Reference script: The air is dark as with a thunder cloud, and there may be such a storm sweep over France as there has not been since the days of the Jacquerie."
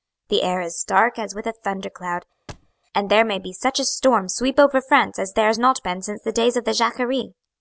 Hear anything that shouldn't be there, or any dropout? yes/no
yes